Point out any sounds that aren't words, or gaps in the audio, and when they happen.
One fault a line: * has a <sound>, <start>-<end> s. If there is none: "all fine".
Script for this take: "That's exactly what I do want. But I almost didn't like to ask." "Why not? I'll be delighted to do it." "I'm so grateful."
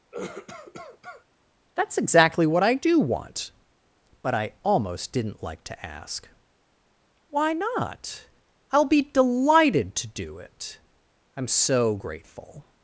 * has a cough, 0.1-1.2 s